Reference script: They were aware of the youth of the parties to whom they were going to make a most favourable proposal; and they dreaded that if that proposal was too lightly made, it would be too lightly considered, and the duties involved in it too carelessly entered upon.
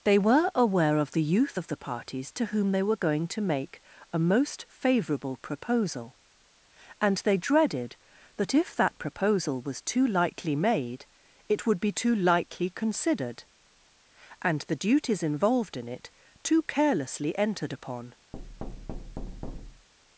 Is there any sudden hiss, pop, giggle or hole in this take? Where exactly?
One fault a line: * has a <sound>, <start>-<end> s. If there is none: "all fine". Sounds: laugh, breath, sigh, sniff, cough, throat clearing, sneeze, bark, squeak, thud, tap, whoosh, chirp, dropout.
* has a thud, 18.3-19.9 s